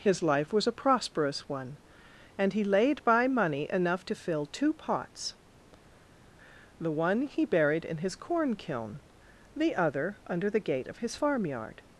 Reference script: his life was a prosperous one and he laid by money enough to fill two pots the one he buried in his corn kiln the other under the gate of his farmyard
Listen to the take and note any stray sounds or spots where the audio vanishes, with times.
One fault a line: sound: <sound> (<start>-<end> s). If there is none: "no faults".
no faults